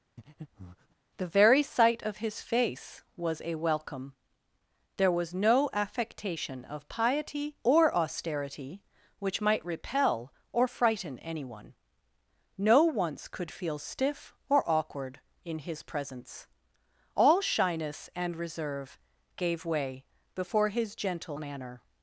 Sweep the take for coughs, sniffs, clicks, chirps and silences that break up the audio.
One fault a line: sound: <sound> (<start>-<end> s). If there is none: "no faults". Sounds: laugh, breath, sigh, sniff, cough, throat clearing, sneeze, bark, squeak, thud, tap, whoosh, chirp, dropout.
sound: breath (0.2-1.0 s)